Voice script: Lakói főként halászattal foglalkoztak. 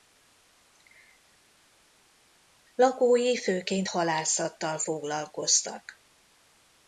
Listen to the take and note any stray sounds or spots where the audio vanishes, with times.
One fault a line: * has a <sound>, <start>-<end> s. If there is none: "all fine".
all fine